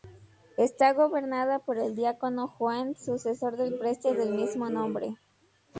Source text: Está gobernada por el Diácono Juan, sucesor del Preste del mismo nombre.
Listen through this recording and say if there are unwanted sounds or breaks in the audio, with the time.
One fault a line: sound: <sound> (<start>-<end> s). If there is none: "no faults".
no faults